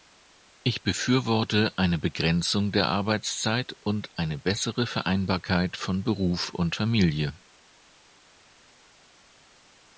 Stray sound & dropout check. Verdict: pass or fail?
pass